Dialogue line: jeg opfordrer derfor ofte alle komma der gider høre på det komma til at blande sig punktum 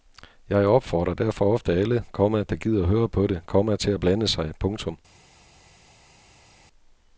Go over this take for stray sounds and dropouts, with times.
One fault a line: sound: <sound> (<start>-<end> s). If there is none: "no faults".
no faults